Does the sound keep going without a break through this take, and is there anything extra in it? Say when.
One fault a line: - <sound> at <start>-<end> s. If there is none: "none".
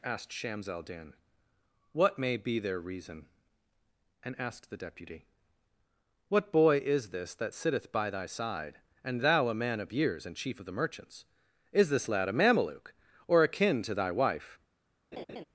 - laugh at 15.1-15.4 s